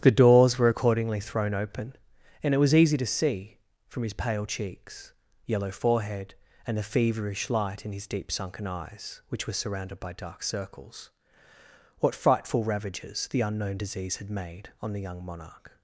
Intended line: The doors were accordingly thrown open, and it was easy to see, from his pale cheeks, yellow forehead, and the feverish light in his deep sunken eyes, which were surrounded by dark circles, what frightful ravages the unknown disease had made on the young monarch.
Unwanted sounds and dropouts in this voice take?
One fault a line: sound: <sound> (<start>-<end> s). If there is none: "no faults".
no faults